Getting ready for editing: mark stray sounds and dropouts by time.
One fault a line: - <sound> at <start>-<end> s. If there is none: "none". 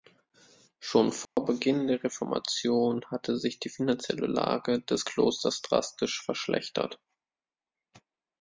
- dropout at 1.2-1.4 s